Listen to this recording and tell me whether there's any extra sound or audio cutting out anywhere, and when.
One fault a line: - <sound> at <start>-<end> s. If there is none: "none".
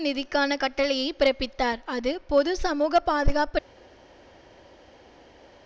none